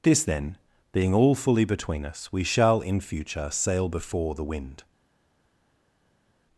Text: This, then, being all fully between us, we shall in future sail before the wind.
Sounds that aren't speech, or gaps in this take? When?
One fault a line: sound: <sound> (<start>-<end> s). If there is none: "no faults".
no faults